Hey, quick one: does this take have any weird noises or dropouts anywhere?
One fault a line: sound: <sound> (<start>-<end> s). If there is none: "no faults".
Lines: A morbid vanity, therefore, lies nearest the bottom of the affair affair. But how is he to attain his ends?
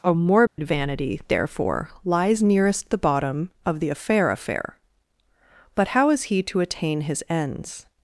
sound: dropout (0.5-0.6 s)